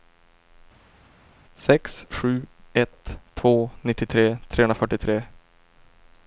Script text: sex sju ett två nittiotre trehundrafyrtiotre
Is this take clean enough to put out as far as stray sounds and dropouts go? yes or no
yes